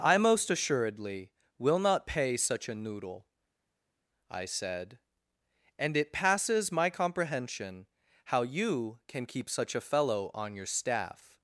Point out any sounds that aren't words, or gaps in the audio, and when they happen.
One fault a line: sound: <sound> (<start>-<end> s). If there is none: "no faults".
no faults